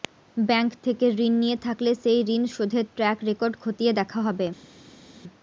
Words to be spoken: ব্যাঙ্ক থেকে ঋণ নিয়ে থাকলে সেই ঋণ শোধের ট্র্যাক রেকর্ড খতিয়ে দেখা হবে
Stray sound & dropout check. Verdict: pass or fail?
pass